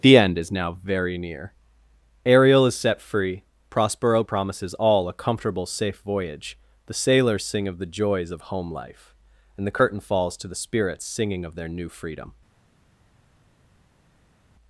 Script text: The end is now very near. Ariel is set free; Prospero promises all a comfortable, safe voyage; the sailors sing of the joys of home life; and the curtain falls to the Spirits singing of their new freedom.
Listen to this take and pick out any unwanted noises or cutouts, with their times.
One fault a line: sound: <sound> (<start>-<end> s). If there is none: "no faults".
no faults